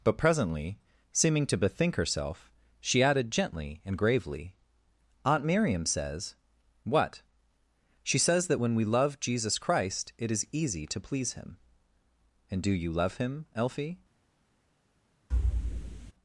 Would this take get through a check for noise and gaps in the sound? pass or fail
fail